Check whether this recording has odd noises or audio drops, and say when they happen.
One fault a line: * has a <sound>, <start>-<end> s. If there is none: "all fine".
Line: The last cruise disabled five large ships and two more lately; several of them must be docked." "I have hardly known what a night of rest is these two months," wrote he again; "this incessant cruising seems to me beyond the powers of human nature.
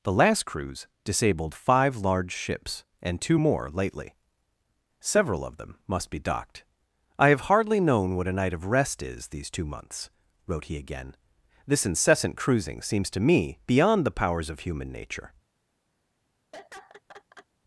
* has a laugh, 16.5-17.5 s